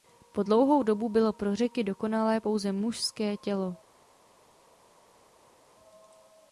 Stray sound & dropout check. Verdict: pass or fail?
pass